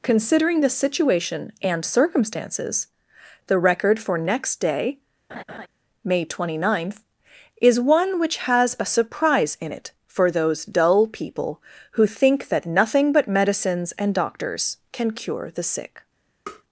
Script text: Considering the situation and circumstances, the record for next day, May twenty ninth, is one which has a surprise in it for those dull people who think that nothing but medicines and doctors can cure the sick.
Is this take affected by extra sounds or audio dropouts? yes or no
yes